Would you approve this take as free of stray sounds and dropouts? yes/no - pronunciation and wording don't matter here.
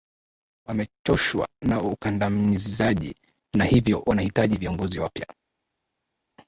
yes